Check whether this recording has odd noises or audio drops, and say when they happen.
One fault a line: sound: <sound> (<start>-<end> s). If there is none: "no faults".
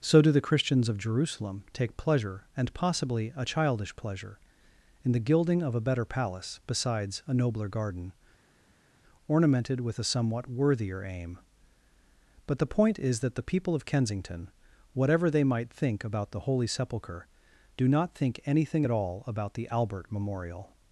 no faults